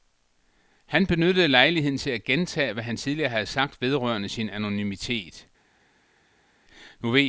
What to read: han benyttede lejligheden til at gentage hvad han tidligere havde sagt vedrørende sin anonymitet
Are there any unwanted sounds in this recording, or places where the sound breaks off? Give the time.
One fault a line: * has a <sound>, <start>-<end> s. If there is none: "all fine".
all fine